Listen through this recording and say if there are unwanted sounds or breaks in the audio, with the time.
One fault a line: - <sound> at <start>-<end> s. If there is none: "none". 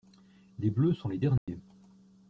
- dropout at 1.4-1.5 s